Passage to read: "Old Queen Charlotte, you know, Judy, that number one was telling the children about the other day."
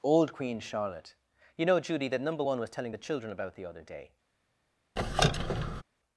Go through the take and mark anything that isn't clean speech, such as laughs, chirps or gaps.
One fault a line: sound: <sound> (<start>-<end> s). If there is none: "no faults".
sound: squeak (5.0-5.8 s)